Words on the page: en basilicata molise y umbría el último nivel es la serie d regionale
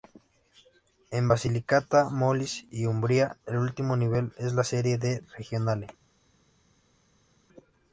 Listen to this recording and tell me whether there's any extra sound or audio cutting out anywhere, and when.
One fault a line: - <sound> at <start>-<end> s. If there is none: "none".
none